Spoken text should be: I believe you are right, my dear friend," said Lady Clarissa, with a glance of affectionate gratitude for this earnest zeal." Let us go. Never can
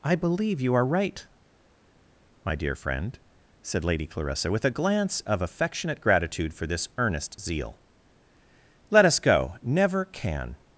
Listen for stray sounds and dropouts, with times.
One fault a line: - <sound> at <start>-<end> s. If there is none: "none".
none